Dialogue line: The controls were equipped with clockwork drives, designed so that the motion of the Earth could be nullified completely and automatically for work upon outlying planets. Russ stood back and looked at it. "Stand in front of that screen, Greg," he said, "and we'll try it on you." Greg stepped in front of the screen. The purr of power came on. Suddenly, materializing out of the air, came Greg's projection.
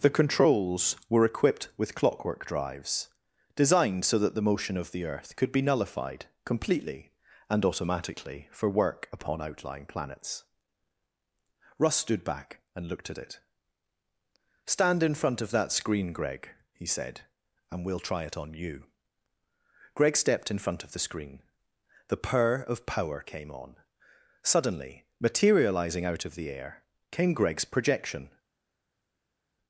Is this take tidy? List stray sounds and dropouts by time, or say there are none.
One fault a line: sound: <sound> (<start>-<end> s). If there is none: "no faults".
no faults